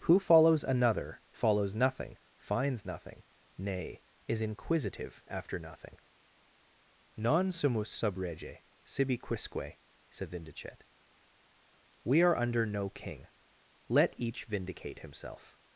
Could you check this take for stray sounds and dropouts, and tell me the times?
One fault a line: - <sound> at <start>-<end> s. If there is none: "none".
none